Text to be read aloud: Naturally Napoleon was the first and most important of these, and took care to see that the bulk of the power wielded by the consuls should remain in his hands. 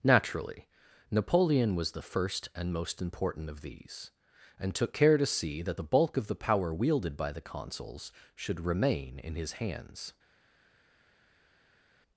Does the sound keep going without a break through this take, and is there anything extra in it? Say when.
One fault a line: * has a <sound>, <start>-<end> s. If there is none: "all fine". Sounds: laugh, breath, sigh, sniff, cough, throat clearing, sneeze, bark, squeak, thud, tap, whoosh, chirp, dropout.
all fine